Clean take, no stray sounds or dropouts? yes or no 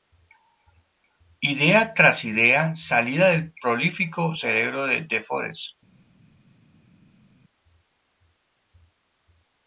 yes